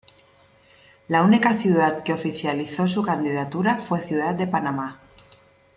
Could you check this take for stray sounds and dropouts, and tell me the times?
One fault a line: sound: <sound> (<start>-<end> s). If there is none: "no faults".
no faults